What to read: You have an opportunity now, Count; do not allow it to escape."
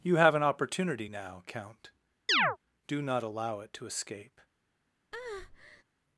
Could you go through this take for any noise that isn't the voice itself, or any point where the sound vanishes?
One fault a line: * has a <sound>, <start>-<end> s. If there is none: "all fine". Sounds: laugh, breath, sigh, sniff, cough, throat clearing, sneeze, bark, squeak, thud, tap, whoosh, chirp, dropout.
* has a chirp, 2.3-2.6 s
* has a breath, 5.1-5.8 s